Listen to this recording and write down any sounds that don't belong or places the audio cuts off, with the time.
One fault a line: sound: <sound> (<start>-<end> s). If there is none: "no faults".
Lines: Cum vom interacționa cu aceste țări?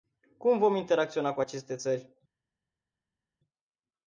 no faults